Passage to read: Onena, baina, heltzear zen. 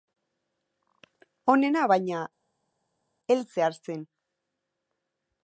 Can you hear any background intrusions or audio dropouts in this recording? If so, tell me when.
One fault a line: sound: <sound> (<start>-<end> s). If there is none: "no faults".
no faults